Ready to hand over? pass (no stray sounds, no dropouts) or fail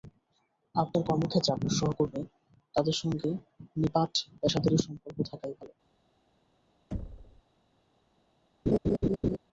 fail